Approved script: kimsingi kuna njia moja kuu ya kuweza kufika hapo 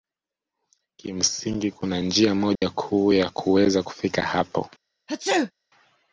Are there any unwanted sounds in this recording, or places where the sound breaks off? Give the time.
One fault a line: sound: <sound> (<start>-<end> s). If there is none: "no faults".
sound: dropout (2.6-2.6 s)
sound: sneeze (5.1-5.5 s)